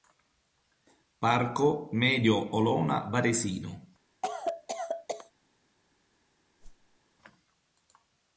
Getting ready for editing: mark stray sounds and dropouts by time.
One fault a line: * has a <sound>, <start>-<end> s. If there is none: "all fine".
* has a cough, 4.2-5.3 s
* has a whoosh, 6.6-7.0 s